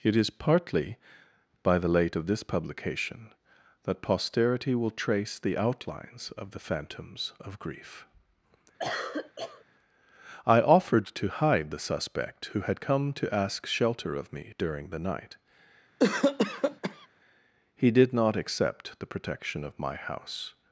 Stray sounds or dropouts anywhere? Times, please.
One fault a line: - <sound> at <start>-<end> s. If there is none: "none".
- cough at 8.8-9.6 s
- cough at 16.0-17.1 s